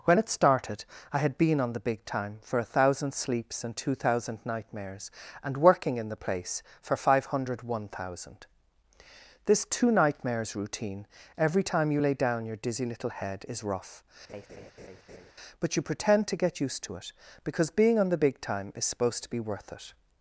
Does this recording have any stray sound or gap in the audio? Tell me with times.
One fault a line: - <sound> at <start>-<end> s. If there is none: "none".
- laugh at 14.3-15.3 s